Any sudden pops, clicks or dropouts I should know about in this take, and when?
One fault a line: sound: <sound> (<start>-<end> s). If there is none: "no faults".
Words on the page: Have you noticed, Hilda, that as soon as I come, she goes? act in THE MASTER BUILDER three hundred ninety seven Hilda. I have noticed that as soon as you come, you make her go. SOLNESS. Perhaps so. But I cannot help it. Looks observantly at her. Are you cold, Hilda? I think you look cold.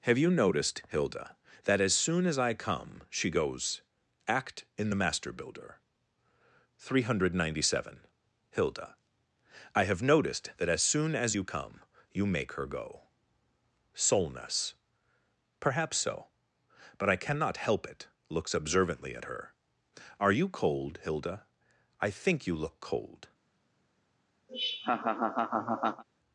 sound: laugh (24.5-26.0 s)